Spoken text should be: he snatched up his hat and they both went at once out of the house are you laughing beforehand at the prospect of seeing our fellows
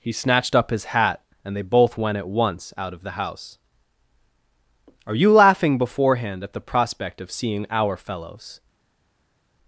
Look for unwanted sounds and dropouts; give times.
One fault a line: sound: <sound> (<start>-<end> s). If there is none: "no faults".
no faults